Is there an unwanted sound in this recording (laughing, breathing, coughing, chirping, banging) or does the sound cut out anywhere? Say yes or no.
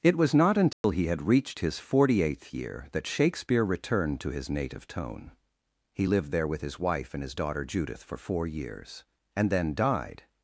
yes